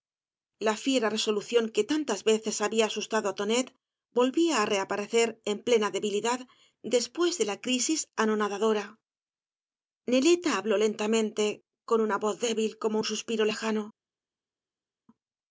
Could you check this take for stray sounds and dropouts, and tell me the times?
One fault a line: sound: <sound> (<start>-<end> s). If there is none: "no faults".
no faults